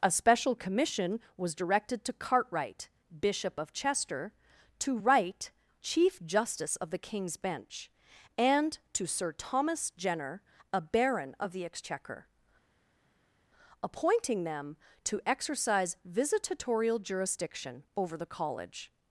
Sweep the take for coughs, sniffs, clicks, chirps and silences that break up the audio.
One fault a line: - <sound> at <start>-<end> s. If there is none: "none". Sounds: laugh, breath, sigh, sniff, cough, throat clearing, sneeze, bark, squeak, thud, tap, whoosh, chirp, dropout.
none